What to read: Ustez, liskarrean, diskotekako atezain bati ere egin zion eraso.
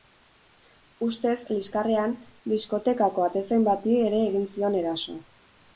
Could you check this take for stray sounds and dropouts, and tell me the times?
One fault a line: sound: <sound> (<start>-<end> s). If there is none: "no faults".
no faults